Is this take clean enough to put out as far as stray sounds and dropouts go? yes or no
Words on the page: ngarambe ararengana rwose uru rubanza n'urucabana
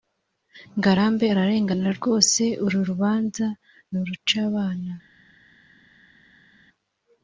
yes